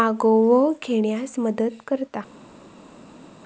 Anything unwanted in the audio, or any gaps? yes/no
no